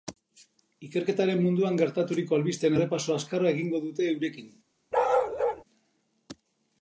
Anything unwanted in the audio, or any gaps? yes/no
yes